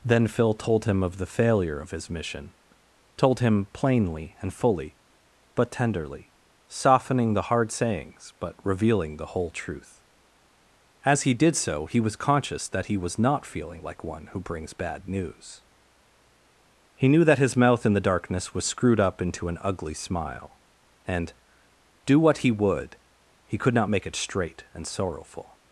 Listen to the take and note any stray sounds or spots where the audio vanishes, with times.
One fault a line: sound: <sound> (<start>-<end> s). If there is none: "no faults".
no faults